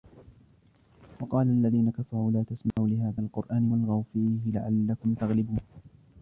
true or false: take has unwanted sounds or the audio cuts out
true